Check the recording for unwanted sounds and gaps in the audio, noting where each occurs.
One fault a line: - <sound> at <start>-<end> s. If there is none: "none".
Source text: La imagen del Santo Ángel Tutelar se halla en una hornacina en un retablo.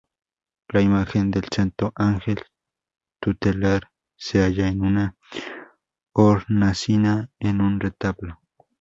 none